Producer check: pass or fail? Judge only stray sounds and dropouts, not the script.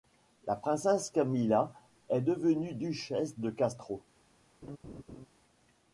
fail